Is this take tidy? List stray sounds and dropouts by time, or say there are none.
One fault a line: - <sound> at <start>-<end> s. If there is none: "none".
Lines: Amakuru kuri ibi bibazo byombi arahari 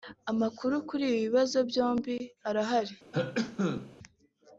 - cough at 3.1-4.0 s